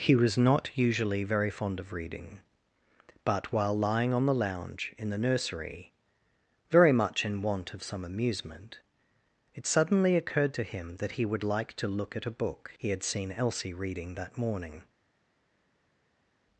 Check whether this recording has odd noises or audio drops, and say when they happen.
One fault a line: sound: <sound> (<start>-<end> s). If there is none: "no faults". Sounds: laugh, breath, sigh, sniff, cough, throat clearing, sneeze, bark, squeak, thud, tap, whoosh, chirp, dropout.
no faults